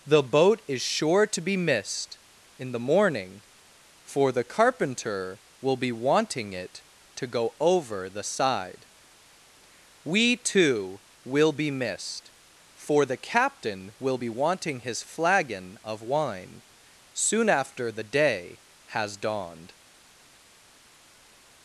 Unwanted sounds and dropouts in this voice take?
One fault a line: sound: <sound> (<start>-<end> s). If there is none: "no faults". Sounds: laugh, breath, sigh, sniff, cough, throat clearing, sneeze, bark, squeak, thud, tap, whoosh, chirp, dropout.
no faults